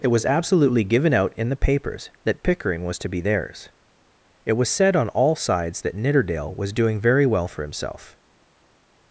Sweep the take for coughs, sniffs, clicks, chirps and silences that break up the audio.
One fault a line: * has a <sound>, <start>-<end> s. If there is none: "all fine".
all fine